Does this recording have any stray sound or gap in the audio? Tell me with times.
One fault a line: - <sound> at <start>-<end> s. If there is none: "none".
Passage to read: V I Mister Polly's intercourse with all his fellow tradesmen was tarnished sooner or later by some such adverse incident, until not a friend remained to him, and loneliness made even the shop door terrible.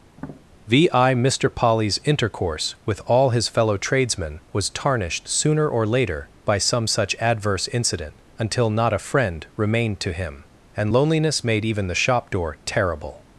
- tap at 0.1-0.4 s